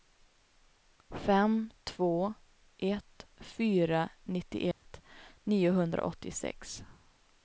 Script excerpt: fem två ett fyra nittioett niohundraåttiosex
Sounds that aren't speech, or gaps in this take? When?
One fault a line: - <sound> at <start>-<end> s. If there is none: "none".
- dropout at 4.7-4.9 s